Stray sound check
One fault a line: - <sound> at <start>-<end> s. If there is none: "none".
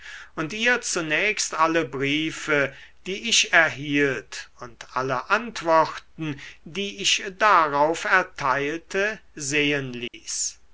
- dropout at 10.1-10.1 s